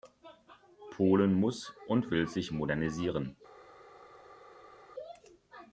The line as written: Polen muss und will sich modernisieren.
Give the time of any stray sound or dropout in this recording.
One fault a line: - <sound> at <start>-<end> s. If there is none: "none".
none